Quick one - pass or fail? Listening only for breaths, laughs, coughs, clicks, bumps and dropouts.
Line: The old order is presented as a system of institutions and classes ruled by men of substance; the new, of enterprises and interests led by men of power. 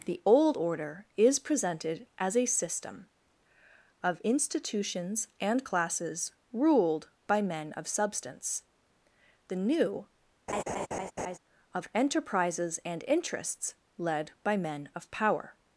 fail